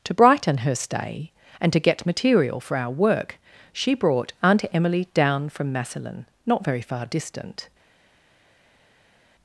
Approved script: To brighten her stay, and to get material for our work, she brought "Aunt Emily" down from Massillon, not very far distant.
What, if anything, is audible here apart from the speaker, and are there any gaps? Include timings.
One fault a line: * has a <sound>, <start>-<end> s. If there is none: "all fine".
all fine